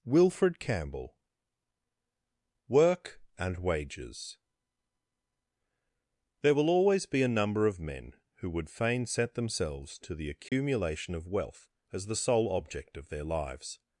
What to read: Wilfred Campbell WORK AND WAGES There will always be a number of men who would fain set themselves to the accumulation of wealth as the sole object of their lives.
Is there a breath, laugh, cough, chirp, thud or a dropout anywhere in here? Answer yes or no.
yes